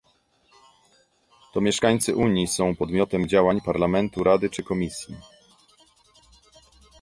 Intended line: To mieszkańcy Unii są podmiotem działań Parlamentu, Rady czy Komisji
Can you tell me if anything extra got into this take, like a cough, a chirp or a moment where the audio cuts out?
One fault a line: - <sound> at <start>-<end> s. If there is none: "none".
none